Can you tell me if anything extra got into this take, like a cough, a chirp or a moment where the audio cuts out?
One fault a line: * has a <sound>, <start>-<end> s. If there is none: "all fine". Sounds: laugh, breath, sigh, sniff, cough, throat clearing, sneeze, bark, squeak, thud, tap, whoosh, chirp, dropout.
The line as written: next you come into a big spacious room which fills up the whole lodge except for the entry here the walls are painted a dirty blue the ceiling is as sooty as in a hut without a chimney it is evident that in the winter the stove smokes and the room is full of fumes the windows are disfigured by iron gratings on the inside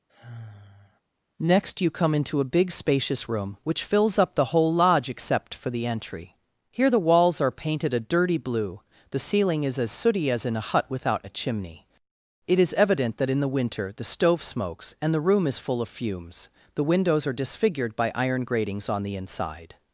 * has a sigh, 0.1-1.0 s